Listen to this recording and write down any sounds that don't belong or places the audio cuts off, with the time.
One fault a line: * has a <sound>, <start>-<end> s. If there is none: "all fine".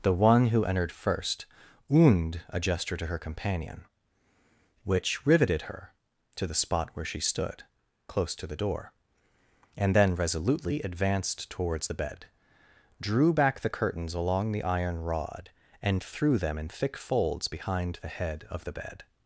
all fine